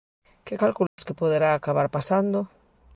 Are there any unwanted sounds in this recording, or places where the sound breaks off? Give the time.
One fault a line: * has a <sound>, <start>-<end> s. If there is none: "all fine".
* has a dropout, 0.9-1.0 s